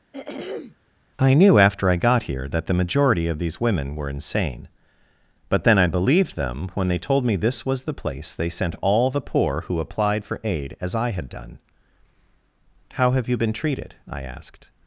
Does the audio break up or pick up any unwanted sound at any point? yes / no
yes